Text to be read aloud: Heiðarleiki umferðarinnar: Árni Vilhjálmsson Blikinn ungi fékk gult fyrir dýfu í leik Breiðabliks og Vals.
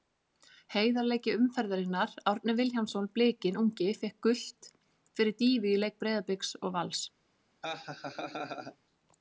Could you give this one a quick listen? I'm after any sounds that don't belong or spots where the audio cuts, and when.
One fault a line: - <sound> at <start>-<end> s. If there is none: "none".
- laugh at 7.6-8.8 s